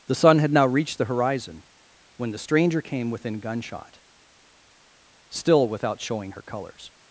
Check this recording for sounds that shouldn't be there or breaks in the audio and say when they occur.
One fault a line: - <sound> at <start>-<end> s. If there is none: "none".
none